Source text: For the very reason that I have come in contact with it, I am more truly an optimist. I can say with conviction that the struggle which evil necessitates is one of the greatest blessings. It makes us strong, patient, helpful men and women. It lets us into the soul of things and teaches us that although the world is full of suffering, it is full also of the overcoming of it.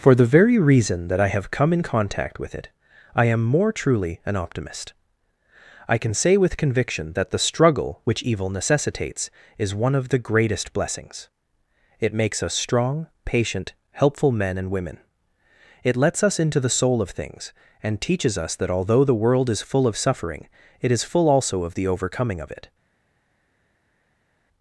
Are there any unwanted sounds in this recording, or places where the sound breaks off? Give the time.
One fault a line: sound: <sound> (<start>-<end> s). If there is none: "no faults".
no faults